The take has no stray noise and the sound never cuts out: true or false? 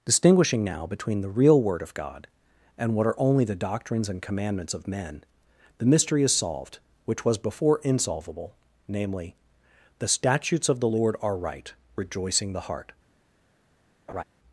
false